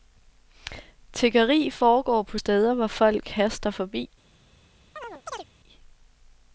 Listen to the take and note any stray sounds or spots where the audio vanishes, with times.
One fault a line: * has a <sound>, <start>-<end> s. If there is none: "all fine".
* has a chirp, 5.0-5.5 s